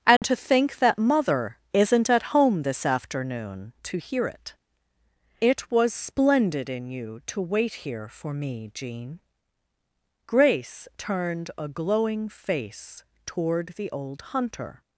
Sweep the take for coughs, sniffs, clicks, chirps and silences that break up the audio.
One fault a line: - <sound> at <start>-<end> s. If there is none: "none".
- dropout at 0.2-0.2 s